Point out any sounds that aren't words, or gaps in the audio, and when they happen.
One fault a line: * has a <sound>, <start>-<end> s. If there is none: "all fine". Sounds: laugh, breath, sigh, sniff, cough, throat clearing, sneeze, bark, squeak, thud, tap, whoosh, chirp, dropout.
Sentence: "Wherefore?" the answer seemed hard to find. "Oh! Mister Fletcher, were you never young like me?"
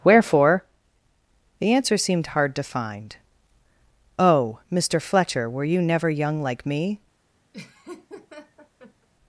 * has a laugh, 7.5-9.1 s